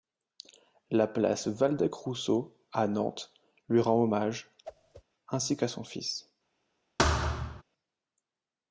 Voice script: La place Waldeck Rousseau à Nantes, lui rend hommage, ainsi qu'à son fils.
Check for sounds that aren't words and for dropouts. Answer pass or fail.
fail